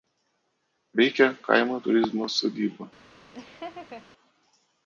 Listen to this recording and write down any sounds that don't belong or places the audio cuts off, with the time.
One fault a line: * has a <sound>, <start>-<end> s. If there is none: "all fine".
* has a laugh, 3.3-4.1 s